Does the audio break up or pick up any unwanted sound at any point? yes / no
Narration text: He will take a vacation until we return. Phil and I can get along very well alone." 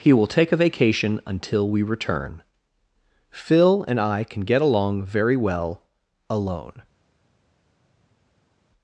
no